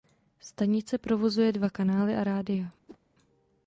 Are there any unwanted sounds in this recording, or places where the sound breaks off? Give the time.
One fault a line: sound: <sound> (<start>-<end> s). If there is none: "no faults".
sound: whoosh (2.9-3.0 s)